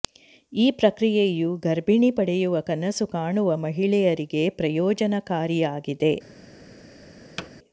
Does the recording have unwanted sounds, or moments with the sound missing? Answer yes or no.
yes